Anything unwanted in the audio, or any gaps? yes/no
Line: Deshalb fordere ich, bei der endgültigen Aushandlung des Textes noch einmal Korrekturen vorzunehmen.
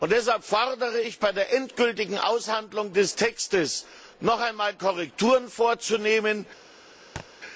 yes